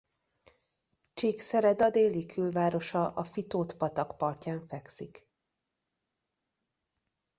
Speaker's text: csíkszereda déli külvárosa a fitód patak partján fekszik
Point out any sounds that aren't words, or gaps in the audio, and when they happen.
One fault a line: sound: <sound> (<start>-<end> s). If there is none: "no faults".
no faults